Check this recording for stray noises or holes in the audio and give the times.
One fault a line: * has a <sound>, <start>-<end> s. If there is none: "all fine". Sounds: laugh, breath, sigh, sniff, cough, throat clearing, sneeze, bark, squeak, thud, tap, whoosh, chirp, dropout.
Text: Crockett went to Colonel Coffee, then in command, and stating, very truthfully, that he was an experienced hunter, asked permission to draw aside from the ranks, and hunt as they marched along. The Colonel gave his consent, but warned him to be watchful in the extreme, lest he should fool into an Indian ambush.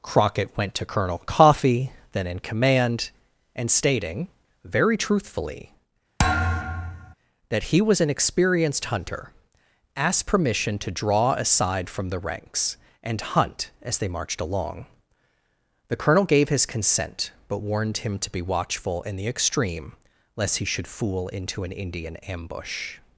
* has a thud, 6.2-7.1 s